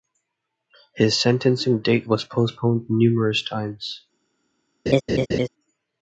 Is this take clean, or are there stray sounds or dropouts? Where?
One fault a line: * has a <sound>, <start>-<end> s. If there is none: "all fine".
* has a laugh, 4.9-5.5 s